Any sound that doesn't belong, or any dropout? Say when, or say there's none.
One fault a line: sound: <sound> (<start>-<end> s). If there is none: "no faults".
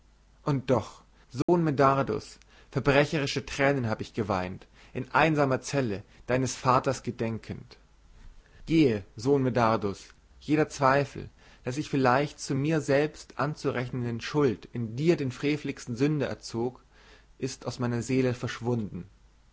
sound: dropout (1.4-1.5 s)